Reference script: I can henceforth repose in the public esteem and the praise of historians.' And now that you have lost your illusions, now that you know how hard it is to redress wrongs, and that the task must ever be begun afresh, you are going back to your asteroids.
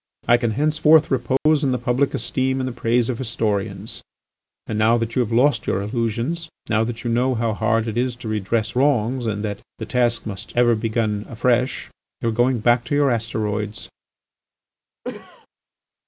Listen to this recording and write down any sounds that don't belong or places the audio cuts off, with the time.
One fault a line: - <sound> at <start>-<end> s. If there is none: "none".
- dropout at 1.4-1.5 s
- cough at 15.0-15.5 s